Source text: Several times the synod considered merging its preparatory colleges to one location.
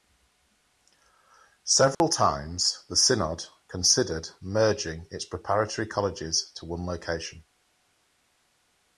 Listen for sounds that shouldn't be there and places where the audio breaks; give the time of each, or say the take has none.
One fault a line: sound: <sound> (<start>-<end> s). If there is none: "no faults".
sound: dropout (1.9-2.0 s)